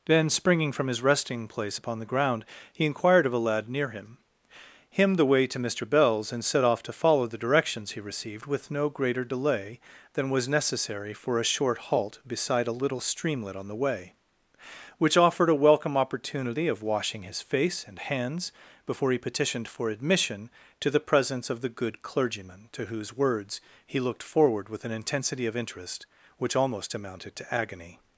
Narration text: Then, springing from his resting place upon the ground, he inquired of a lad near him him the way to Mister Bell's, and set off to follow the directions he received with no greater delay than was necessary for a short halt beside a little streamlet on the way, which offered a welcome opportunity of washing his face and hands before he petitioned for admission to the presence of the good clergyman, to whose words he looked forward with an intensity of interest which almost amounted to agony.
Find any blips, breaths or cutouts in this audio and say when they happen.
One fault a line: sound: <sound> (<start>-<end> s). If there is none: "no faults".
no faults